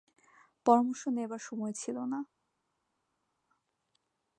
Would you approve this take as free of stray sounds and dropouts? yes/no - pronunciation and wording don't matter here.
yes